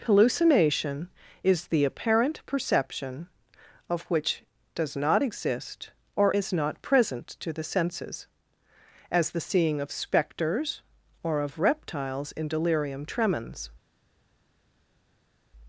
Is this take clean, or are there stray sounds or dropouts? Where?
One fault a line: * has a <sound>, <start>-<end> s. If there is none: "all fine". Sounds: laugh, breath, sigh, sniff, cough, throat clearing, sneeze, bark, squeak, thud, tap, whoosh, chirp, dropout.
all fine